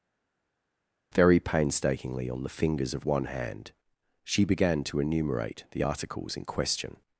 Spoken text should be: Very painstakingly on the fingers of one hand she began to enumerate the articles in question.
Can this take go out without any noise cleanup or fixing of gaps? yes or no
yes